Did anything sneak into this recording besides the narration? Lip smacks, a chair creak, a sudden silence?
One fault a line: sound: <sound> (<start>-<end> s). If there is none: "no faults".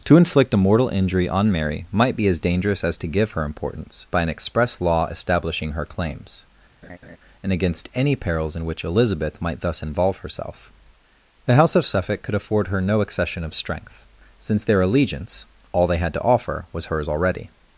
sound: laugh (6.8-7.2 s)